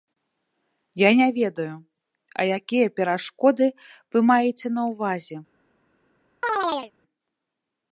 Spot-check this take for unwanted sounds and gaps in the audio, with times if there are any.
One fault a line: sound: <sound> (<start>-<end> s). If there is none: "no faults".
sound: chirp (6.4-6.9 s)